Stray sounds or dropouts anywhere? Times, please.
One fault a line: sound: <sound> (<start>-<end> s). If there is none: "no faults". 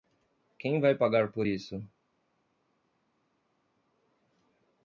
no faults